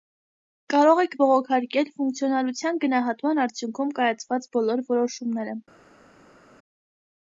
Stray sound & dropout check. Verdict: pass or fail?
pass